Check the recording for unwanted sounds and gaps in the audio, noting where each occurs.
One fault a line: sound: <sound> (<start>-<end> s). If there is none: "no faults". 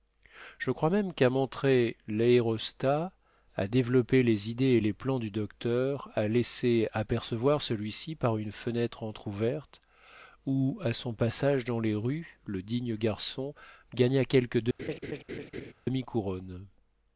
sound: laugh (14.8-15.7 s)